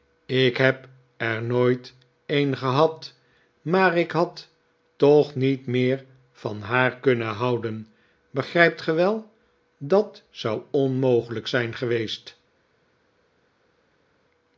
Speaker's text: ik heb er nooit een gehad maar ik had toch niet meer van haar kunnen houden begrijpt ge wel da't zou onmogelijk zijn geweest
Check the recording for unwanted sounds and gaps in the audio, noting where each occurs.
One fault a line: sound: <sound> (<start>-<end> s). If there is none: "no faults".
no faults